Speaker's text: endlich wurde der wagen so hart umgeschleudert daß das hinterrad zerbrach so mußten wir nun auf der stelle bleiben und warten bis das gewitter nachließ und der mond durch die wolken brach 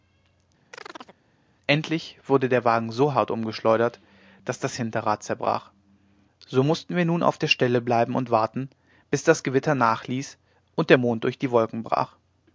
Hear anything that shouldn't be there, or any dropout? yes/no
yes